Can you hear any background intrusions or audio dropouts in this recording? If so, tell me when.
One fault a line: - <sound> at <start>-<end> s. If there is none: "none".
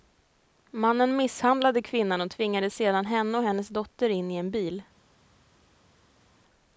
none